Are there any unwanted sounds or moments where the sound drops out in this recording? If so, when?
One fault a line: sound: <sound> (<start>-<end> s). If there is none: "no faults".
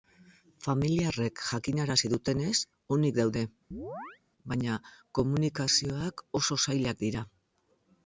sound: chirp (3.7-4.2 s)